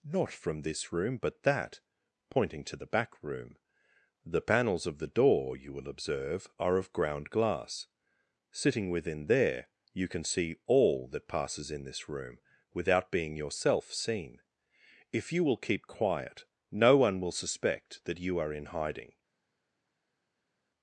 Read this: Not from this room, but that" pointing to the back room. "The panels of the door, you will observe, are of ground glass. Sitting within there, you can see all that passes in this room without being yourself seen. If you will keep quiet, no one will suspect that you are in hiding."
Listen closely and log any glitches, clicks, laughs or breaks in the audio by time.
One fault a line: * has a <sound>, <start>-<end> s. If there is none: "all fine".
all fine